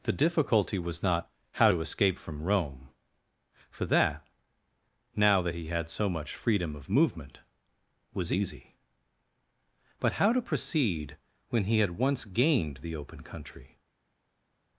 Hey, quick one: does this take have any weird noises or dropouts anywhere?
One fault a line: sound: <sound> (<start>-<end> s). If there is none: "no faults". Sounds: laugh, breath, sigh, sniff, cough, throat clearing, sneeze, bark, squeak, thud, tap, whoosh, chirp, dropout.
no faults